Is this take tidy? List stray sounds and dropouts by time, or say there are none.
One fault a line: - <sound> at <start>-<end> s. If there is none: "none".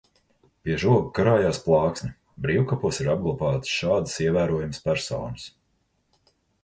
none